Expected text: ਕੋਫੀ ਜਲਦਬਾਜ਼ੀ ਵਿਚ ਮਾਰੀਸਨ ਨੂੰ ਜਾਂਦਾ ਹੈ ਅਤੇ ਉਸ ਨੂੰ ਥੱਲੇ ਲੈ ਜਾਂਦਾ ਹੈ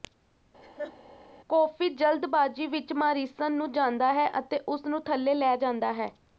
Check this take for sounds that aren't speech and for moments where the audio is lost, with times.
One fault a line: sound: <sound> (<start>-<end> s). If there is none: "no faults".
sound: laugh (0.6-0.9 s)